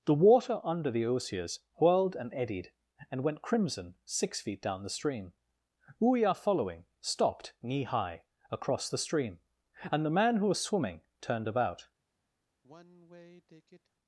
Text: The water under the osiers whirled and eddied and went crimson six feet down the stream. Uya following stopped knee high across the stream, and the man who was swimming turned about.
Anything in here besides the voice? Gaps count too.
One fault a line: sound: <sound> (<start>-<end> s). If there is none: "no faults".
sound: sigh (12.6-13.9 s)